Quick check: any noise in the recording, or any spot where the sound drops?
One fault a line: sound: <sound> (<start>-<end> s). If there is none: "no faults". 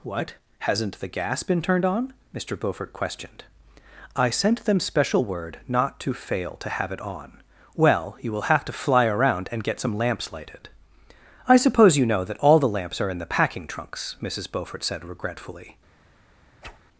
sound: whoosh (16.6-16.8 s)